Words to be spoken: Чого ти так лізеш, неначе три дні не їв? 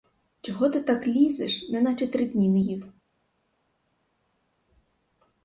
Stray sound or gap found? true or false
false